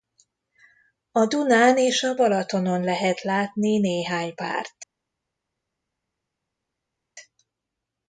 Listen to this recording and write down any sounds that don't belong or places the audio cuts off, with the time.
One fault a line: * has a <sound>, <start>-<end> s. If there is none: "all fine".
all fine